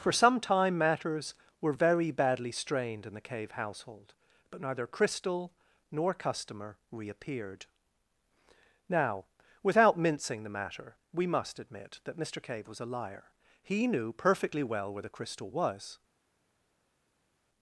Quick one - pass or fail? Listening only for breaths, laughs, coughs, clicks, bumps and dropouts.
pass